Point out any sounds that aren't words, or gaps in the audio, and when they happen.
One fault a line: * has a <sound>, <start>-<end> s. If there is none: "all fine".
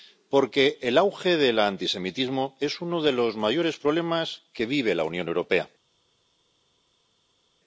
all fine